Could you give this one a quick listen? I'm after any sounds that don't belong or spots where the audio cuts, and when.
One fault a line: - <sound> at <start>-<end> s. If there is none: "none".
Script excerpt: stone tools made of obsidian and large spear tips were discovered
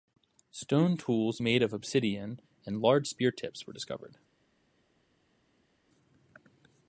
none